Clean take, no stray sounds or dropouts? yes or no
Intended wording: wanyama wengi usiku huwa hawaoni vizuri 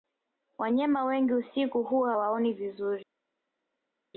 yes